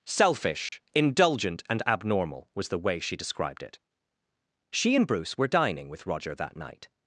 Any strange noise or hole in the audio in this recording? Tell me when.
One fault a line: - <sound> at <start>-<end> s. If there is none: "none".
- dropout at 0.7-0.7 s